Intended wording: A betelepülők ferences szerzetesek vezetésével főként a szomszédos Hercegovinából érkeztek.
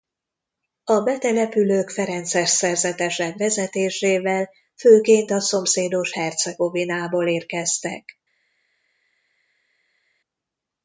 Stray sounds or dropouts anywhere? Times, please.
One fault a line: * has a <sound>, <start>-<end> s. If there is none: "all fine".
all fine